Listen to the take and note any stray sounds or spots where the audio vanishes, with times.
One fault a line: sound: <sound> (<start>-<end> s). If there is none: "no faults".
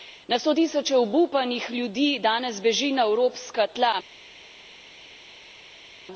no faults